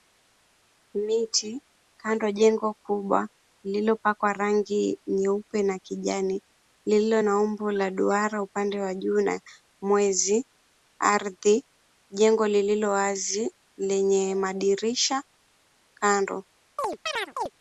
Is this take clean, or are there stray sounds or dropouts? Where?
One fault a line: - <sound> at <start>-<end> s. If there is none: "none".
- chirp at 16.8-17.5 s